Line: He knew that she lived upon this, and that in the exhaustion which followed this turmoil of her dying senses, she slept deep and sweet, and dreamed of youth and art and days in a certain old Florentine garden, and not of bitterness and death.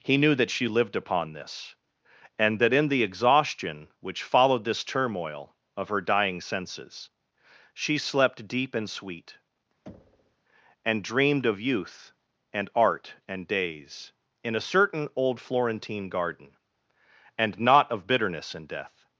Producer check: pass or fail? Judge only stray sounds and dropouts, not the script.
fail